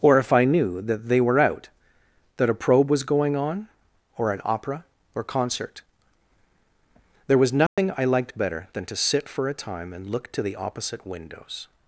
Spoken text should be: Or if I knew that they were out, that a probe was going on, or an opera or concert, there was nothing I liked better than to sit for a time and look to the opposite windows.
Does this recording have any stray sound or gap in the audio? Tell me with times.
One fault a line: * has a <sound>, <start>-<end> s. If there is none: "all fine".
* has a dropout, 7.7-7.8 s